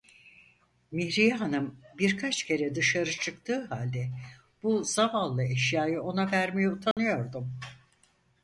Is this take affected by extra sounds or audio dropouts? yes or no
yes